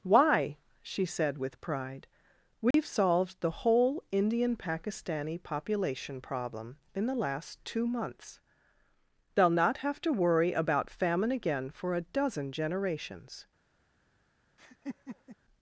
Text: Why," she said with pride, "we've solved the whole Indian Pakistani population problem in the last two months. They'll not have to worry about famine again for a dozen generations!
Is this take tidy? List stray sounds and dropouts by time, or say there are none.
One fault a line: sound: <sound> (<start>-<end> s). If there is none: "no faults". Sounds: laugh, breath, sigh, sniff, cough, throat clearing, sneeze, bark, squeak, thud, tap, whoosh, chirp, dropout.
sound: dropout (2.7-2.7 s)
sound: laugh (14.6-15.4 s)